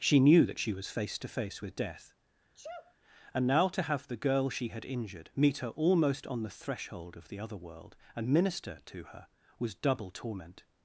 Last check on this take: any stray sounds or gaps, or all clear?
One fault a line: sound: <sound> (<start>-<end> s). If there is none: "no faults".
sound: sneeze (2.5-3.0 s)